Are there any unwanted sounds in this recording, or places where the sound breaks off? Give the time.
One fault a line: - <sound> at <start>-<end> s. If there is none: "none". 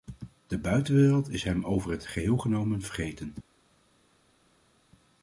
none